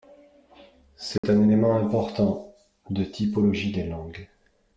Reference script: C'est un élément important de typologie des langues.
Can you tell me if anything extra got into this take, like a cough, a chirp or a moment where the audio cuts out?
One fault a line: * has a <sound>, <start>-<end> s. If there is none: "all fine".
* has a dropout, 1.2-1.2 s